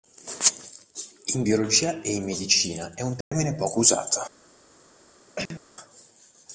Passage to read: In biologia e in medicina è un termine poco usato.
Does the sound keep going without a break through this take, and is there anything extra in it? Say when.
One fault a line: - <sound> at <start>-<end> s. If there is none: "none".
- dropout at 3.2-3.3 s
- cough at 5.4-5.6 s